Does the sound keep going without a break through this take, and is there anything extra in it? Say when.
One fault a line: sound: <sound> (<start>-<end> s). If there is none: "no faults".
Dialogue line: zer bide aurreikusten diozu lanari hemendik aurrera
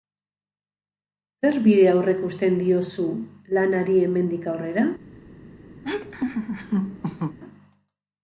sound: laugh (5.8-7.4 s)